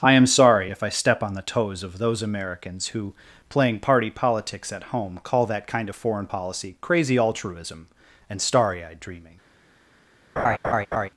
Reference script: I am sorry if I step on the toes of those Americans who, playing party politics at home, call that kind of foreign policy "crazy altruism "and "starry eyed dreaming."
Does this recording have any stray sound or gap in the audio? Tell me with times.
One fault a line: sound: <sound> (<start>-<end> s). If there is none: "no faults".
sound: laugh (10.4-11.1 s)